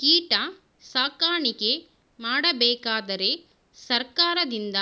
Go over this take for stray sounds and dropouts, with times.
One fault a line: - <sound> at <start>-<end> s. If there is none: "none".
none